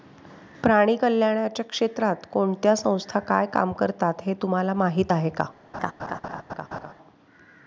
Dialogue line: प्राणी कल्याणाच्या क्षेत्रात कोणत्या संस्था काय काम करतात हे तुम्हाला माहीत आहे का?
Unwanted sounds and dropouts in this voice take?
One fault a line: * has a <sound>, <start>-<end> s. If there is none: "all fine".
* has a laugh, 5.7-6.9 s